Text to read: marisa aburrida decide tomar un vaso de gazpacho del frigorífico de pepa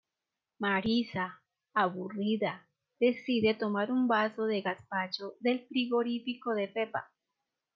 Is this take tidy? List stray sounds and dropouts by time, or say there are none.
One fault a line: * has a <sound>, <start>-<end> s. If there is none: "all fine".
all fine